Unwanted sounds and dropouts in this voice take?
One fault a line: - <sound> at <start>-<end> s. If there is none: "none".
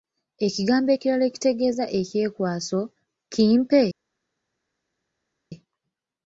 none